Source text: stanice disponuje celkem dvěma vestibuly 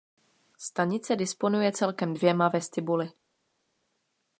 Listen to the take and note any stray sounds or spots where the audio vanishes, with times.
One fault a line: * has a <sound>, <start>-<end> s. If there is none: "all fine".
all fine